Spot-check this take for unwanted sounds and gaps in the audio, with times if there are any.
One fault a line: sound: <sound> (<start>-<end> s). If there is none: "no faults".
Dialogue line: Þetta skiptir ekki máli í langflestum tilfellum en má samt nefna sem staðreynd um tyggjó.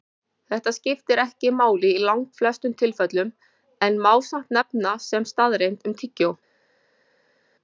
no faults